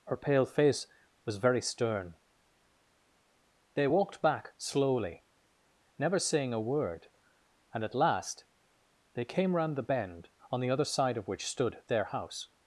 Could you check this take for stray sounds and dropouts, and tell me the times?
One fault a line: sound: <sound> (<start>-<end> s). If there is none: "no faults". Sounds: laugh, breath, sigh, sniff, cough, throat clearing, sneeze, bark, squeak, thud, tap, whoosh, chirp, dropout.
no faults